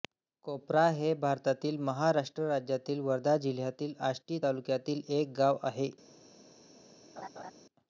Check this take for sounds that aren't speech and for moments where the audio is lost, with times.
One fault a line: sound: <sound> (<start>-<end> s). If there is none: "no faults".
sound: laugh (7.2-7.5 s)